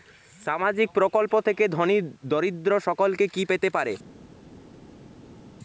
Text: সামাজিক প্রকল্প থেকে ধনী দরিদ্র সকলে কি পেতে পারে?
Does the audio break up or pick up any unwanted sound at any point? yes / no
no